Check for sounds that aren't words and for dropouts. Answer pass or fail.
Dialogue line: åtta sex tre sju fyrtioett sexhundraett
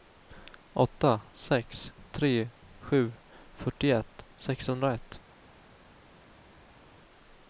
pass